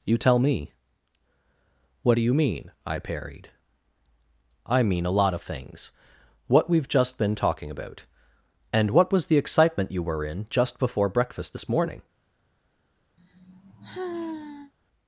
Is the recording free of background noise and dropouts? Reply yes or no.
no